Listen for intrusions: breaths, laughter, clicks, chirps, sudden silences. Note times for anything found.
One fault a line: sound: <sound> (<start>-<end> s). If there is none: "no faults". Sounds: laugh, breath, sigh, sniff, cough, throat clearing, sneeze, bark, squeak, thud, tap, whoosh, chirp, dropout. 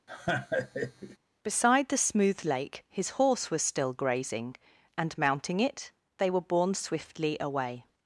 sound: laugh (0.1-1.2 s)